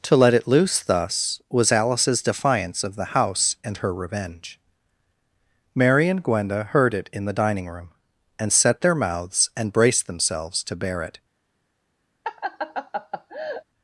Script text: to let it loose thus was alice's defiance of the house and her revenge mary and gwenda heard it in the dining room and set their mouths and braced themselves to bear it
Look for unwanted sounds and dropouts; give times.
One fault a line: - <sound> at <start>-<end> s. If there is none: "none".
- laugh at 12.2-13.6 s